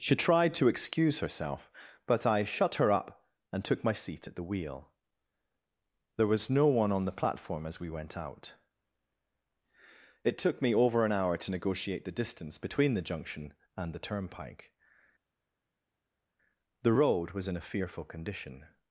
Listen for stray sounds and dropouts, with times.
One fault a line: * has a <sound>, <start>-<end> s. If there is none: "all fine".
all fine